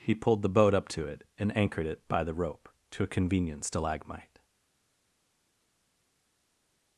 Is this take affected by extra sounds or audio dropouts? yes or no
no